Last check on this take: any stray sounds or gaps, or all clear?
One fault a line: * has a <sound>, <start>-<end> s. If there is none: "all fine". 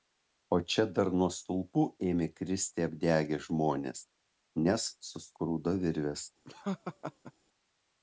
* has a laugh, 6.4-7.3 s